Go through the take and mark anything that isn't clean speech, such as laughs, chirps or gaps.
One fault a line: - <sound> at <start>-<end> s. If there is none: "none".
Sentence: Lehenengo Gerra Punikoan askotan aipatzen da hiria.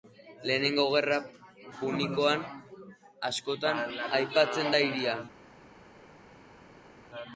none